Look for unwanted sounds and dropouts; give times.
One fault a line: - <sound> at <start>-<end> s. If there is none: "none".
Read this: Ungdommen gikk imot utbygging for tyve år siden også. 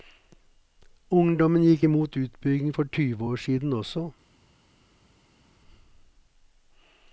none